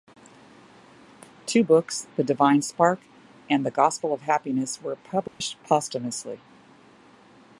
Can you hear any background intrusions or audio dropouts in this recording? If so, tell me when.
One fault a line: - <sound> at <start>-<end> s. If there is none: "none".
- dropout at 5.3-5.4 s